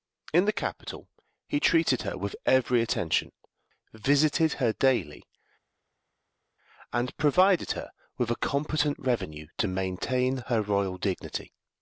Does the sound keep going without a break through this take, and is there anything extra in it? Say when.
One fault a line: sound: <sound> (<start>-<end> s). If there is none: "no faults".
no faults